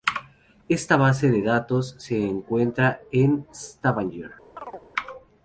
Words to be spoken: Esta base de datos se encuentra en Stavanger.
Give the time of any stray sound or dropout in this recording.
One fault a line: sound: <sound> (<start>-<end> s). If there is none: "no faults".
sound: chirp (4.6-4.9 s)